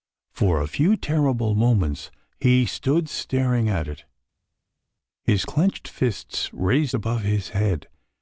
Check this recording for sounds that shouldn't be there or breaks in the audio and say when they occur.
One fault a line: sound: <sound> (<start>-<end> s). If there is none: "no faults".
no faults